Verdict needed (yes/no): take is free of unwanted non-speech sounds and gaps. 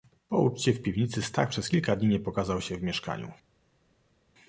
yes